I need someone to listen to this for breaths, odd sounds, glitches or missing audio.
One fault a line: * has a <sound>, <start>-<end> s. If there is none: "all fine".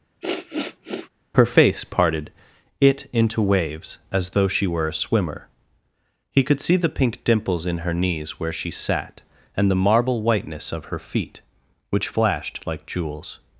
* has a sniff, 0.2-1.1 s